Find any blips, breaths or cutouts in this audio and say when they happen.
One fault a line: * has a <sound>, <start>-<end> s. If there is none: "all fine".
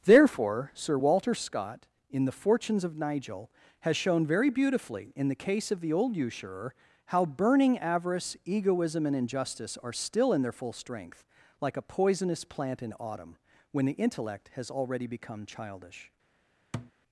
* has a thud, 16.7-16.9 s